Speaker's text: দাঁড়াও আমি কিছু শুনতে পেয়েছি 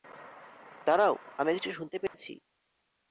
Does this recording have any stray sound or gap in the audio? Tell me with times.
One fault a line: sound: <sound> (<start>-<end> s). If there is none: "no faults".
sound: dropout (2.1-2.1 s)